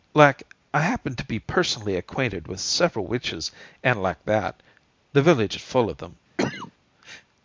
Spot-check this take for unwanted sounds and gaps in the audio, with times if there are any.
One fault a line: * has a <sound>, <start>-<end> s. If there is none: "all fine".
* has a cough, 6.4-6.7 s